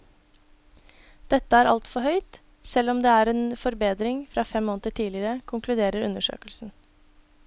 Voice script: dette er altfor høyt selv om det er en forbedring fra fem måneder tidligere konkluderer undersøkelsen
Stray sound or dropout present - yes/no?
no